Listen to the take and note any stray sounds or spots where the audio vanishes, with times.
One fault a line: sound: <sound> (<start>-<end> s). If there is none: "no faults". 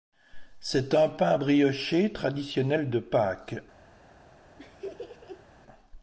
sound: laugh (4.6-5.5 s)